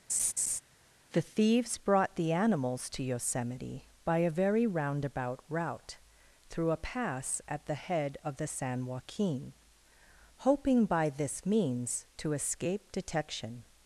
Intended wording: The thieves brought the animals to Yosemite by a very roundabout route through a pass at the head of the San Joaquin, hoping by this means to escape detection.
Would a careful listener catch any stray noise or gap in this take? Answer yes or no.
yes